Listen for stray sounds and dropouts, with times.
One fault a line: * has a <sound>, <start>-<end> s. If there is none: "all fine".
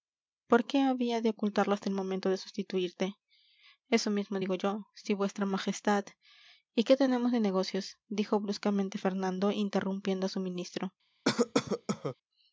* has a cough, 11.3-12.2 s